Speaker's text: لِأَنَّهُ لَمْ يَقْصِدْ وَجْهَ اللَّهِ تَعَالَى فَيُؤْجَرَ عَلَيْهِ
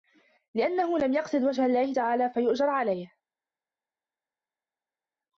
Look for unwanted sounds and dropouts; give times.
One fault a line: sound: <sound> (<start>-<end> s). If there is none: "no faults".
no faults